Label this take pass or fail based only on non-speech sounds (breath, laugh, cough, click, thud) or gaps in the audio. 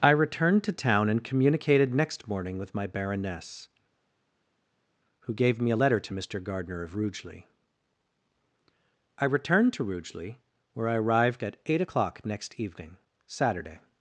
pass